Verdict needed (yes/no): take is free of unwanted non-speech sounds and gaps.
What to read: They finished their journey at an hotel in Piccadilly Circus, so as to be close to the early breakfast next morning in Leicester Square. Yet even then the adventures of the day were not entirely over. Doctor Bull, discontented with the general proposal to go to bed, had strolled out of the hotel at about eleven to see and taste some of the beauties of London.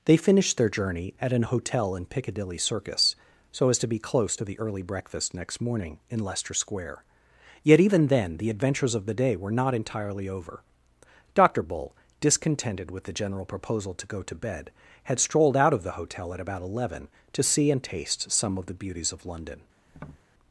no